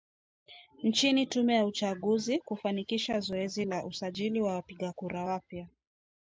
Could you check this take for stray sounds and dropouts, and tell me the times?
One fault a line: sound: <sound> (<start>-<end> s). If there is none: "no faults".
no faults